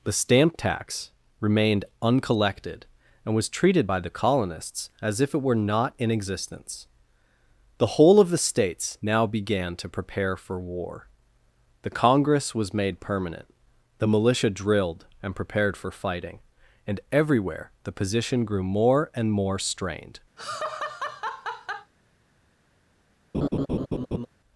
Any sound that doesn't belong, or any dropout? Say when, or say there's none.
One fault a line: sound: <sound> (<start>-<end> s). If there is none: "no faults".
sound: laugh (20.4-21.9 s)
sound: laugh (23.3-24.3 s)